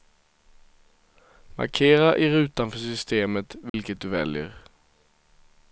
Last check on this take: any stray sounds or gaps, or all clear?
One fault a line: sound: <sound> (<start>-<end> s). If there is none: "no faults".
sound: dropout (3.7-3.7 s)